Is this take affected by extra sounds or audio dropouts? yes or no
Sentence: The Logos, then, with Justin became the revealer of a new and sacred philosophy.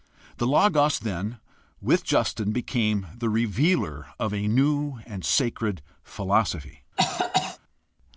yes